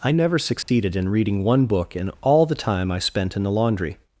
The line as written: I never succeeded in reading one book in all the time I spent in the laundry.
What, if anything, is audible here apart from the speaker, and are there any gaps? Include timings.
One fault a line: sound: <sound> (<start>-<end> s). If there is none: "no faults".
sound: dropout (0.6-0.7 s)